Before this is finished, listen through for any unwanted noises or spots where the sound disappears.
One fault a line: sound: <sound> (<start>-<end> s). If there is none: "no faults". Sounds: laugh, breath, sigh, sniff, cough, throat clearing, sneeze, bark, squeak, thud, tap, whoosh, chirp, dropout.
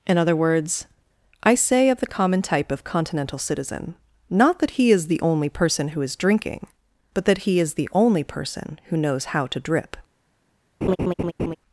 sound: laugh (10.8-11.6 s)